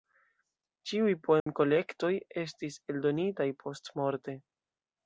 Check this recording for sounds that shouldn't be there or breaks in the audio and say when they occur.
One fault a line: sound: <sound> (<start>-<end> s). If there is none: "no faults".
sound: dropout (1.4-1.5 s)